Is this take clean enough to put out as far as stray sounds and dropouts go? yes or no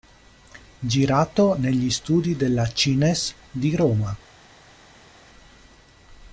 yes